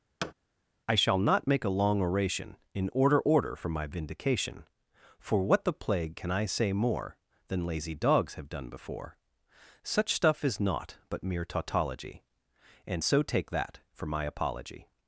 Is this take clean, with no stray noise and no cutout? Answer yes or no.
no